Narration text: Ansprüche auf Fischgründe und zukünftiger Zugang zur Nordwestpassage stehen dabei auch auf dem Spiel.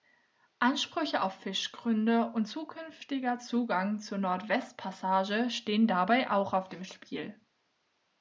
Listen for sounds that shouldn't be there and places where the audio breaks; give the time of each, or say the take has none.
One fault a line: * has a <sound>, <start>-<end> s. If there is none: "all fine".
all fine